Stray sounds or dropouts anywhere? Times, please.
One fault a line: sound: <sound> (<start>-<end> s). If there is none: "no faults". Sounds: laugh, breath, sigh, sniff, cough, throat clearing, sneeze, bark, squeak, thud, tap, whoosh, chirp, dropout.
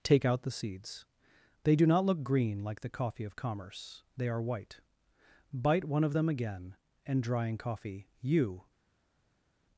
no faults